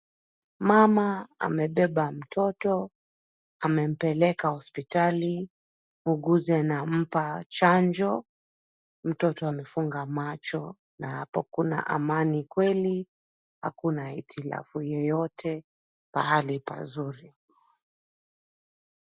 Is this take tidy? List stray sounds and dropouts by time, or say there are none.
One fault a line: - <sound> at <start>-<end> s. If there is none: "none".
none